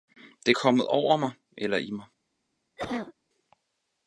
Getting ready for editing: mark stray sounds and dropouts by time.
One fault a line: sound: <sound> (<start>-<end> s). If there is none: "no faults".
sound: cough (2.8-3.1 s)